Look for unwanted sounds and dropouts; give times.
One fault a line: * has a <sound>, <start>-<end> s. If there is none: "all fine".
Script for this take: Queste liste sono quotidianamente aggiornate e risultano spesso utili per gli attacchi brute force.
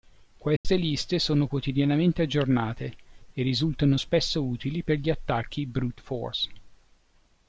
* has a dropout, 0.6-0.6 s